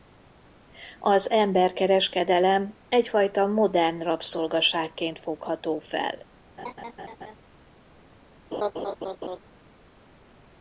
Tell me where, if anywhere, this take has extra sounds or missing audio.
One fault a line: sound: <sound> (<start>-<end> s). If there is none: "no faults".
sound: laugh (6.6-7.4 s)
sound: laugh (8.5-9.4 s)